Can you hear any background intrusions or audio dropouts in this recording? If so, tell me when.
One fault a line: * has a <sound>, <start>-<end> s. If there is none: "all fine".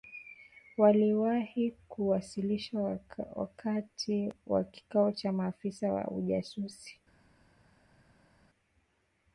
all fine